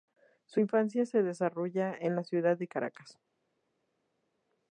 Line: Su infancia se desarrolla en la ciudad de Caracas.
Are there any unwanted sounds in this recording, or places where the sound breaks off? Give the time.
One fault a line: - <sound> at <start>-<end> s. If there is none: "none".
none